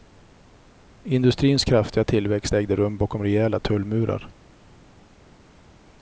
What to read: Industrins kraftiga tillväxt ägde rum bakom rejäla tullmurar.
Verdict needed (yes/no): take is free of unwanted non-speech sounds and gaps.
yes